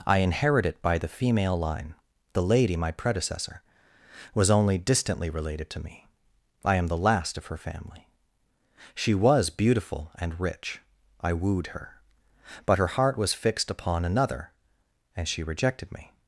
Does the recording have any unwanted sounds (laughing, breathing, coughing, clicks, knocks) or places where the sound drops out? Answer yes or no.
no